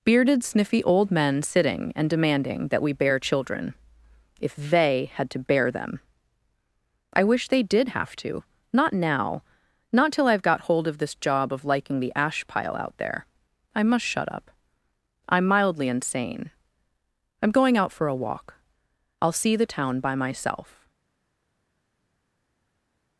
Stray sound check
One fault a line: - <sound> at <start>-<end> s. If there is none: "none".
none